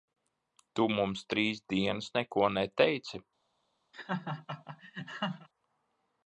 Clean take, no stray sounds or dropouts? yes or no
no